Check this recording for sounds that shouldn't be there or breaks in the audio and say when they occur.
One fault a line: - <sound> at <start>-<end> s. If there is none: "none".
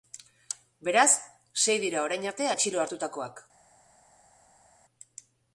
none